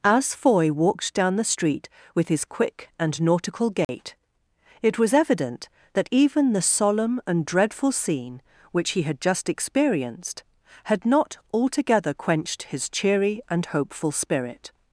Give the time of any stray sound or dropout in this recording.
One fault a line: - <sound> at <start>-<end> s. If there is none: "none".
- dropout at 3.8-3.9 s